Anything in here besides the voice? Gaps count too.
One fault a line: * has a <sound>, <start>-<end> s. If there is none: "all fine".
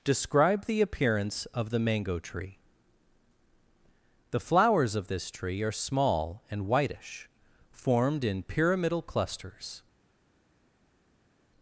all fine